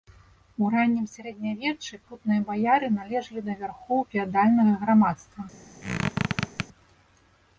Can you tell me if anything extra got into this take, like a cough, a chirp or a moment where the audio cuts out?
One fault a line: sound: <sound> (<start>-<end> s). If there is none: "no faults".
sound: squeak (5.8-6.7 s)